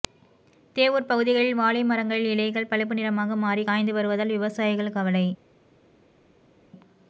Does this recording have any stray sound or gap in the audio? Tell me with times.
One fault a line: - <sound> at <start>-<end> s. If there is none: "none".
none